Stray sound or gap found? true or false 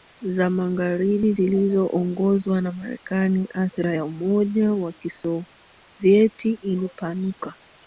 false